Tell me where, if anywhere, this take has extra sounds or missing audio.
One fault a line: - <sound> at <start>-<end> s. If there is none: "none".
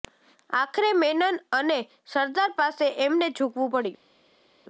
none